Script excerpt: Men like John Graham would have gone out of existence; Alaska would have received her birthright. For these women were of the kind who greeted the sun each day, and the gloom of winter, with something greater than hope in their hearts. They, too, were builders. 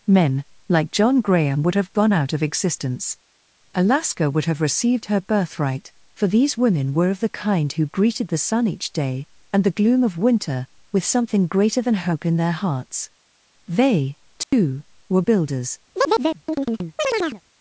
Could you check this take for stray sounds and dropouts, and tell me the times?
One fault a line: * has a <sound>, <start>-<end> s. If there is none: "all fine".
* has a dropout, 14.4-14.5 s
* has a chirp, 16.0-17.4 s